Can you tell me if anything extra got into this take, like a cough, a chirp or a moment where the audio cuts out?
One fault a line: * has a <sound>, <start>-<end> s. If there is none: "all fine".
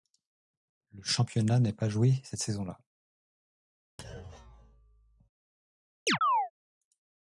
* has a thud, 4.0-5.3 s
* has a chirp, 6.1-6.5 s